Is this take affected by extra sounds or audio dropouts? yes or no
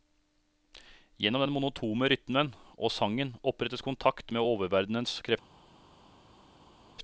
no